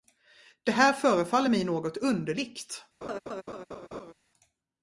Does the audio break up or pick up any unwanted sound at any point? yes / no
yes